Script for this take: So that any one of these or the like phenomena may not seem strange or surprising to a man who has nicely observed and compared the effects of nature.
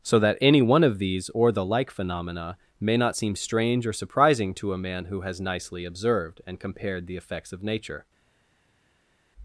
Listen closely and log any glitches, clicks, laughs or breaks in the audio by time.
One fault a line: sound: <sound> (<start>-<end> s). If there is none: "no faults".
no faults